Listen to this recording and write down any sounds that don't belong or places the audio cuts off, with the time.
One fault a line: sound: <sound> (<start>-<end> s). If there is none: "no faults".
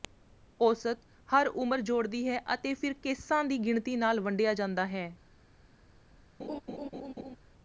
sound: laugh (6.4-7.4 s)